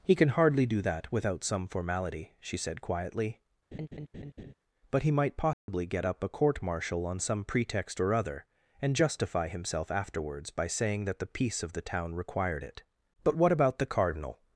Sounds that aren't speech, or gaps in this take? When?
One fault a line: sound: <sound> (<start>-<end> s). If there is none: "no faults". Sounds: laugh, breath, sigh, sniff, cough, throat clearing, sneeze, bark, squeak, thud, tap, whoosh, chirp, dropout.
sound: laugh (3.7-4.5 s)
sound: dropout (5.5-5.7 s)